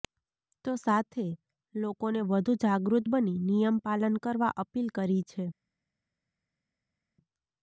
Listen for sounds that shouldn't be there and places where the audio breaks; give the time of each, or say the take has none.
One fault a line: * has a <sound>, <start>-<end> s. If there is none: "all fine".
all fine